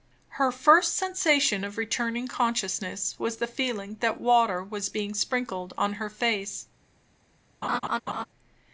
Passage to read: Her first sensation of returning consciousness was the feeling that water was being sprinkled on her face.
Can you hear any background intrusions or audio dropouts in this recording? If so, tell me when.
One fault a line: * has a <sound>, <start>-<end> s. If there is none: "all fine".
* has a laugh, 7.6-8.3 s